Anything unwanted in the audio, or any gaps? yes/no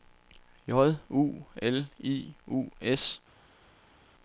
no